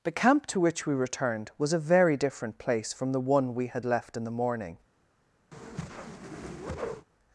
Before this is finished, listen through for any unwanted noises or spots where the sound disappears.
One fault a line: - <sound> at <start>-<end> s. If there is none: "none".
- whoosh at 5.5-7.1 s